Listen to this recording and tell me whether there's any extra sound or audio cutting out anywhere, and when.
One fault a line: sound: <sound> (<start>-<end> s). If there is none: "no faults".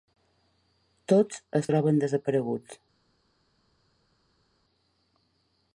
no faults